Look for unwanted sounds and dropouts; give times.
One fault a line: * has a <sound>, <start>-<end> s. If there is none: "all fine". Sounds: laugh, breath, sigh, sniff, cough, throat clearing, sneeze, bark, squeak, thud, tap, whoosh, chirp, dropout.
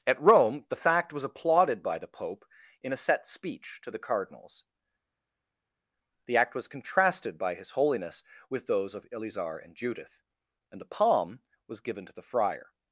all fine